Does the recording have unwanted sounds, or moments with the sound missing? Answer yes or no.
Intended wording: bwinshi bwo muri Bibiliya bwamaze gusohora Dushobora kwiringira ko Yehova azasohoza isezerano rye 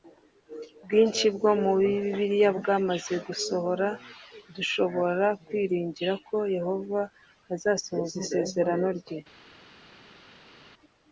no